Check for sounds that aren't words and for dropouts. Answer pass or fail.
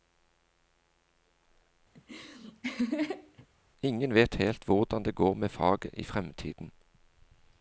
fail